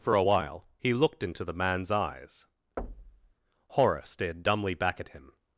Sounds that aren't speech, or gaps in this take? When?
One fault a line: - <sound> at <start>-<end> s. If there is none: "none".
- thud at 2.8-3.3 s